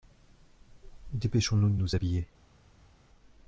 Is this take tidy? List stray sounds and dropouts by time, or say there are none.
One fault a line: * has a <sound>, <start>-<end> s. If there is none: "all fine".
all fine